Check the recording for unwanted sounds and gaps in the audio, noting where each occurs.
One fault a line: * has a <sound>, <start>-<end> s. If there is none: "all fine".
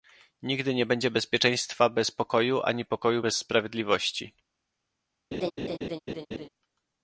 * has a laugh, 5.3-6.5 s